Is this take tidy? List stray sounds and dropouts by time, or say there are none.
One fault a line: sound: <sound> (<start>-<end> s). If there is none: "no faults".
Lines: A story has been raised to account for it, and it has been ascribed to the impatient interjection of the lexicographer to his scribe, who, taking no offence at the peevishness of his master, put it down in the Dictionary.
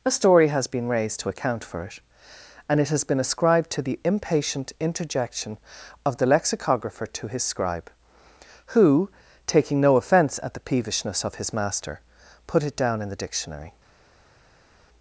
no faults